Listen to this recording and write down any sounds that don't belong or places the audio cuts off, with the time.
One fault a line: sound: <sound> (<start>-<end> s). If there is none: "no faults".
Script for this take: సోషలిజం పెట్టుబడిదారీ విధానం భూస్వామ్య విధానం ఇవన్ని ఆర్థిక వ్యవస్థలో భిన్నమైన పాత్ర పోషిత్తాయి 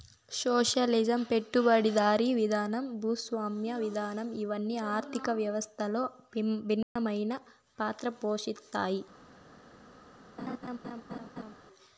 sound: dropout (6.8-7.0 s)
sound: laugh (10.4-11.5 s)